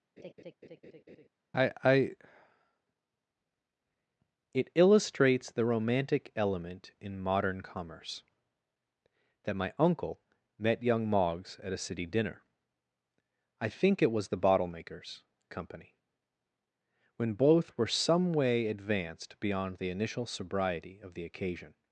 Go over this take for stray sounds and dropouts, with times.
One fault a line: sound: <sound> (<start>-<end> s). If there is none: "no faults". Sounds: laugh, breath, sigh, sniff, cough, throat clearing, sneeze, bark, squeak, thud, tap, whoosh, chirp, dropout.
sound: laugh (0.2-1.3 s)